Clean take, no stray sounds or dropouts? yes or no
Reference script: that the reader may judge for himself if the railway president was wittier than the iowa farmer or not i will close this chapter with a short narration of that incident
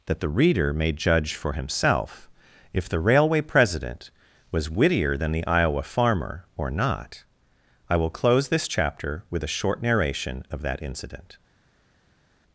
yes